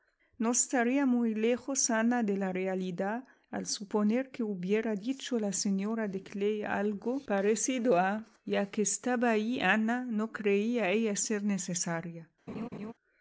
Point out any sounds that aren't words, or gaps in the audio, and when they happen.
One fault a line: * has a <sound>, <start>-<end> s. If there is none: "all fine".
* has a laugh, 12.5-12.9 s